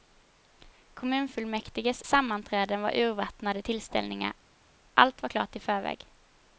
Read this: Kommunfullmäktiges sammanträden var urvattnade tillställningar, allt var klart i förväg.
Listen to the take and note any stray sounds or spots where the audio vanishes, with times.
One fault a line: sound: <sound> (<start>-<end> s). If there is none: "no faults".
no faults